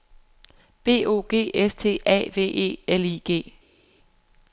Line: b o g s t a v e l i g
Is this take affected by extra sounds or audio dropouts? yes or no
no